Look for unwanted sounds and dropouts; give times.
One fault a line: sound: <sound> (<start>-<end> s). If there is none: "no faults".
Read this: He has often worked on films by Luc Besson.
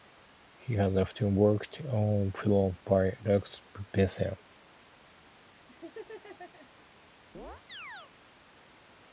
sound: laugh (5.7-6.7 s)
sound: chirp (7.3-8.1 s)